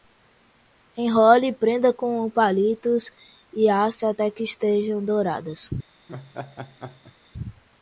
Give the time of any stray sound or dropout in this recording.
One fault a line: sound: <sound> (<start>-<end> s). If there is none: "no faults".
sound: laugh (6.1-7.2 s)